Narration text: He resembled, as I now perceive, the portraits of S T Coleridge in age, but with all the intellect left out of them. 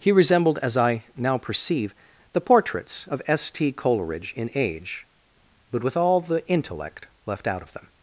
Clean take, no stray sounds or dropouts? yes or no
yes